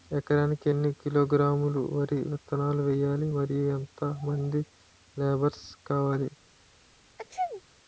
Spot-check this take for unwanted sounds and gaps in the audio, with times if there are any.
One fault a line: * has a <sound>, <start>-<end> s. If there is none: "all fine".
* has a sneeze, 7.2-7.6 s